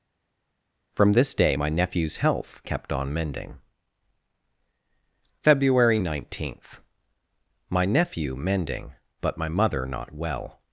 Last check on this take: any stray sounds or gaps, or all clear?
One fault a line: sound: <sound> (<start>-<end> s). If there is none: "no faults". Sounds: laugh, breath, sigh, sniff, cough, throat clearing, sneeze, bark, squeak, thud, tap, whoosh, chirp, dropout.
no faults